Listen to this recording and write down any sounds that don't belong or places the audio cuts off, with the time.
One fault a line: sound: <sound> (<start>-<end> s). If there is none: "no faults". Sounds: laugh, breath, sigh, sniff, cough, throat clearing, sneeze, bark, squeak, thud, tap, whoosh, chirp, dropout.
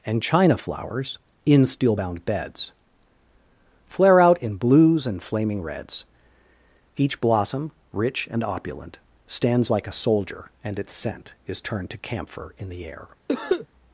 sound: cough (13.3-13.7 s)